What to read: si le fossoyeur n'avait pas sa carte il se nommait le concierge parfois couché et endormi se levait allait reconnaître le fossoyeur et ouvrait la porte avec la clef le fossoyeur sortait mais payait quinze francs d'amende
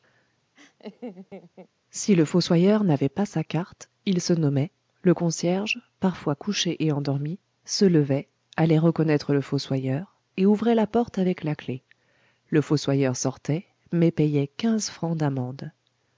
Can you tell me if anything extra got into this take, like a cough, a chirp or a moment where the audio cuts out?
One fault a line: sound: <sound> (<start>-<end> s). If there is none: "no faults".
sound: laugh (0.6-1.7 s)